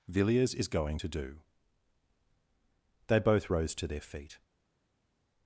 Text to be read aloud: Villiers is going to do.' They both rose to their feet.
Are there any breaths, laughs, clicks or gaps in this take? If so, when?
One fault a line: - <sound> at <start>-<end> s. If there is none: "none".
none